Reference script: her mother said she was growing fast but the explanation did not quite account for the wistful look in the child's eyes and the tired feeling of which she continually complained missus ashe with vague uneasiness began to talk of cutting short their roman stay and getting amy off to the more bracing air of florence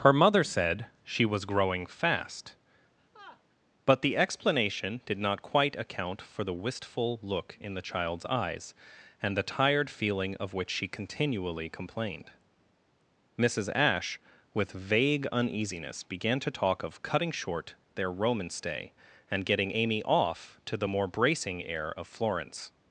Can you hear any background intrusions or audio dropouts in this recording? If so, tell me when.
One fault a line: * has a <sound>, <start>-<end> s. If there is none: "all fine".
* has a laugh, 3.0-3.4 s